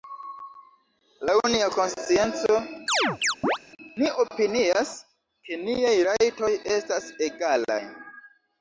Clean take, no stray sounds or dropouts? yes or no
no